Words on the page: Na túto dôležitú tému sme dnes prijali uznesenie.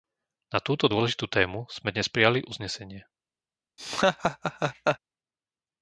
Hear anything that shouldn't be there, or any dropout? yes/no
yes